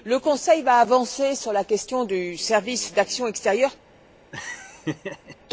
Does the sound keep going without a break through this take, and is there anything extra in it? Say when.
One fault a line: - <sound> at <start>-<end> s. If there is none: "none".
- laugh at 4.3-5.4 s